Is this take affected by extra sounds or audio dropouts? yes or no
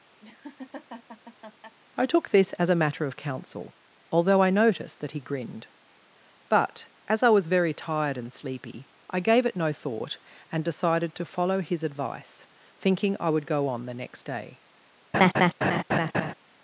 yes